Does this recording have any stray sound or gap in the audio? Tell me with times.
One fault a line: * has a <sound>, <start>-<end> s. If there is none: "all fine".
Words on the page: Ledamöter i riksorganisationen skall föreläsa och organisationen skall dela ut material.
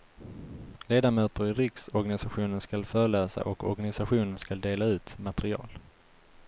all fine